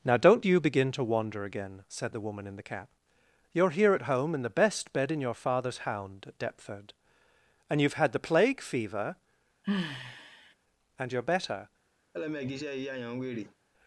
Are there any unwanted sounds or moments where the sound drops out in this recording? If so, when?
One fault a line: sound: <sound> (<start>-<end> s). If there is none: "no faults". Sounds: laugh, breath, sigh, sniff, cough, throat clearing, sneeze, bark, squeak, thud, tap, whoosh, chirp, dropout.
sound: sigh (9.6-10.5 s)
sound: laugh (12.1-13.6 s)